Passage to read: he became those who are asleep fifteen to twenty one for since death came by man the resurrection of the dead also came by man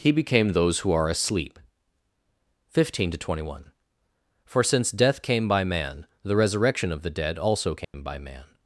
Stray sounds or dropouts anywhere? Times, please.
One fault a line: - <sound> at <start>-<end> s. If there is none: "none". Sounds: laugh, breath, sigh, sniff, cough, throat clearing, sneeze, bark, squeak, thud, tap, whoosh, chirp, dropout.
- dropout at 7.8-7.9 s